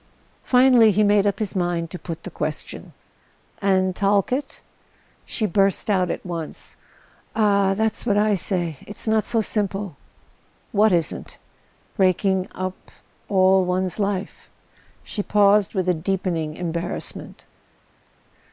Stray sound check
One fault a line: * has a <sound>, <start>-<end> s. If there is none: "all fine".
all fine